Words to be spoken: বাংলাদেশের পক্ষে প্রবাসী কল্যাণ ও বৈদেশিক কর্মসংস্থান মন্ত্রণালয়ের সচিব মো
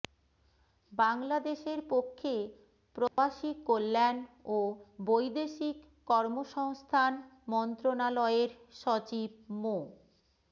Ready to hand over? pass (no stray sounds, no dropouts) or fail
fail